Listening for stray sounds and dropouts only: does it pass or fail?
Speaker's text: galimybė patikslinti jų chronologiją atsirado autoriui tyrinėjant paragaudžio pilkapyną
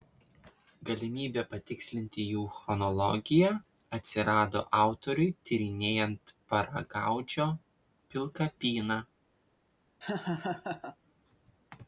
fail